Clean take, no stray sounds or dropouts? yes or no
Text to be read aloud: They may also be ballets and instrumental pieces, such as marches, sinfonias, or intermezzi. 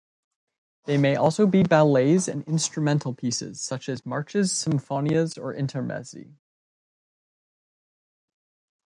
yes